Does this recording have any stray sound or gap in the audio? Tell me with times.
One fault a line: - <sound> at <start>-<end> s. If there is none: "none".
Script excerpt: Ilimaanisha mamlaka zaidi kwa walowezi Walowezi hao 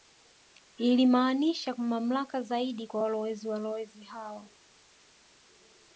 none